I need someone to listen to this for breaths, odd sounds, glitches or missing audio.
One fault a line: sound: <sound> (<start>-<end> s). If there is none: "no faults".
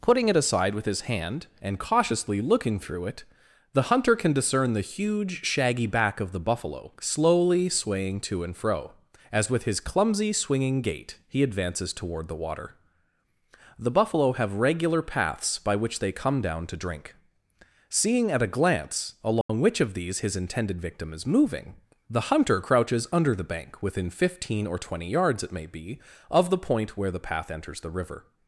sound: dropout (19.4-19.5 s)